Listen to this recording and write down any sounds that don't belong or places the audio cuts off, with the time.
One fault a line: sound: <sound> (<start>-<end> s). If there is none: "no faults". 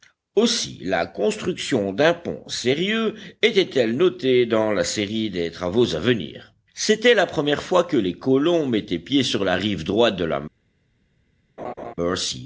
sound: laugh (11.6-11.9 s)